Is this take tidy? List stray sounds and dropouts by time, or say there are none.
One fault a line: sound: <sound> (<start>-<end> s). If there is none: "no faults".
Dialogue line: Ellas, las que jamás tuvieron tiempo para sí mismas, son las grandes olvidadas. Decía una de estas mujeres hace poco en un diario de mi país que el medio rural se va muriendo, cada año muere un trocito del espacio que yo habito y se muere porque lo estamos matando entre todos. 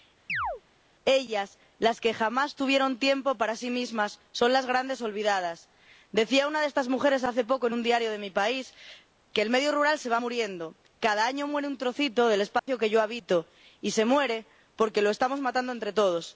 sound: chirp (0.3-0.6 s)
sound: dropout (12.6-12.7 s)